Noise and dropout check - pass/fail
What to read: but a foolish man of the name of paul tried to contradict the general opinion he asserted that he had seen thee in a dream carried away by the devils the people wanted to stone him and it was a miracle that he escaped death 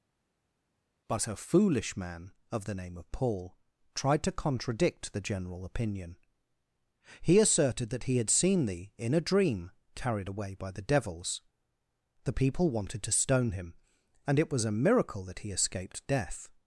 pass